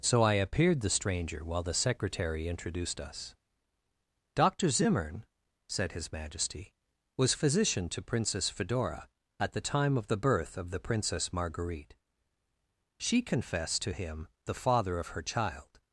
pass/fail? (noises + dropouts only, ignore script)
pass